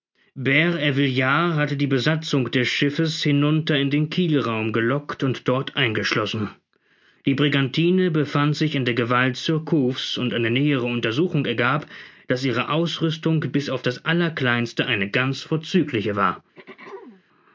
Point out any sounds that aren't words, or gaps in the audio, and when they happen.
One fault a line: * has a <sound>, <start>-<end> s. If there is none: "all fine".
* has a throat clearing, 16.5-17.2 s